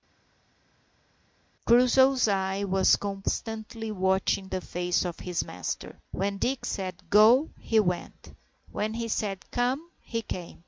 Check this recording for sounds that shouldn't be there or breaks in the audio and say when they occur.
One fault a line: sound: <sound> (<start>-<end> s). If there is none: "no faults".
no faults